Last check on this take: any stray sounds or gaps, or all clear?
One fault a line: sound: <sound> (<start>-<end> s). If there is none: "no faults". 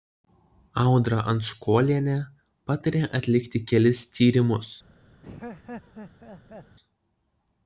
sound: laugh (5.2-6.8 s)